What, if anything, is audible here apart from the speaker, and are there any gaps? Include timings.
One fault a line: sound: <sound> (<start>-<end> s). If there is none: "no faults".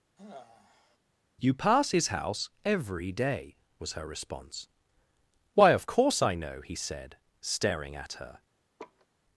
sound: sigh (0.2-1.0 s)
sound: laugh (8.8-9.1 s)